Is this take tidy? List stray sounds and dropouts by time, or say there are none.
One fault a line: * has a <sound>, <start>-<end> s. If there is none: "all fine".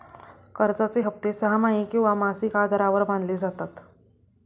all fine